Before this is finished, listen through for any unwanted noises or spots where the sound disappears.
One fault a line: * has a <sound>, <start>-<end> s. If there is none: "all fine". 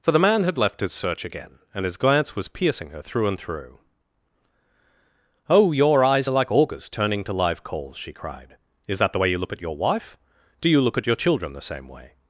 all fine